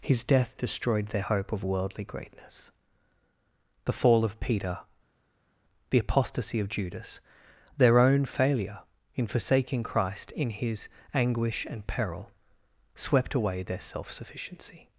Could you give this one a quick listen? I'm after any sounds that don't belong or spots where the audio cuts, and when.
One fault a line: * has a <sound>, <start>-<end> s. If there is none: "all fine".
all fine